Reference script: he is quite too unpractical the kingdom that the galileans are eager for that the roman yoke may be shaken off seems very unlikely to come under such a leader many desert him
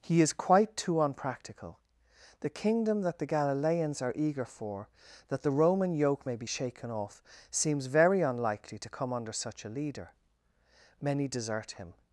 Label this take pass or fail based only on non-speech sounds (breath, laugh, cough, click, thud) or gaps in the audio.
pass